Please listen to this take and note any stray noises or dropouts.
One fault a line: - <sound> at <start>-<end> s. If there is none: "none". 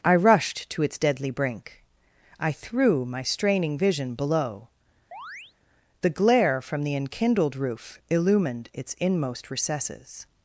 - chirp at 5.1-5.5 s